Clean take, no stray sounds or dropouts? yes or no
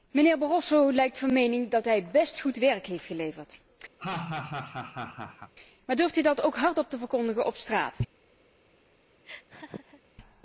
no